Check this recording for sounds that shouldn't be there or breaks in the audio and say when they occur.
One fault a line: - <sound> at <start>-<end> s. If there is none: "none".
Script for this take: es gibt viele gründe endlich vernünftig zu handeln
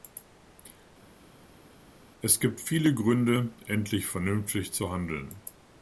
none